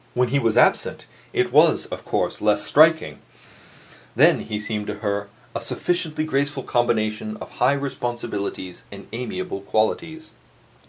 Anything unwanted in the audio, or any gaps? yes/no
no